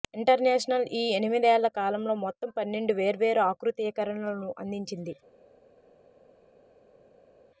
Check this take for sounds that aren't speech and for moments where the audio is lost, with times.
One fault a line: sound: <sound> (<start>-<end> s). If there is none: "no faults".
no faults